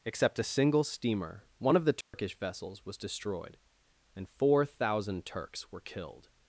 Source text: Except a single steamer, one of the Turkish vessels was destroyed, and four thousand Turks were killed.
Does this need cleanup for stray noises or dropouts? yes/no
yes